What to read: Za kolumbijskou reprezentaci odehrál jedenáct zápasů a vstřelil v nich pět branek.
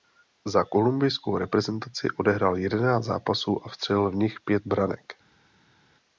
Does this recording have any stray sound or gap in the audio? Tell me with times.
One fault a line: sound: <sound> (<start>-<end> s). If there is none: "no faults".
no faults